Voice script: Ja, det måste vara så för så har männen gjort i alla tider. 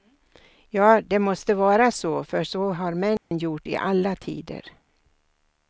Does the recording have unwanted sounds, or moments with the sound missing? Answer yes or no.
yes